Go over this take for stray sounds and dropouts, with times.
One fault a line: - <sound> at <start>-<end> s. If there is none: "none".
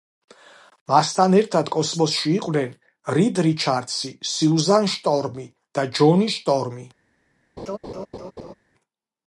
- laugh at 7.6-8.5 s